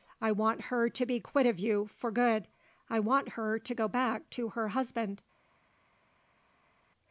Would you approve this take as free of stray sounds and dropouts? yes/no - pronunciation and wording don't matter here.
yes